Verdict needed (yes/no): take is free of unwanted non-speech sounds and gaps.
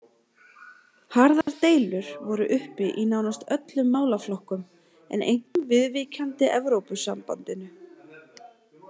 no